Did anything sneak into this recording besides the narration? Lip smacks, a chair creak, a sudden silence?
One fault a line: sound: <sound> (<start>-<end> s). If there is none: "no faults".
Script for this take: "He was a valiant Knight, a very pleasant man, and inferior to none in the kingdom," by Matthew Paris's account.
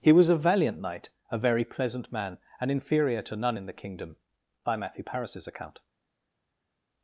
no faults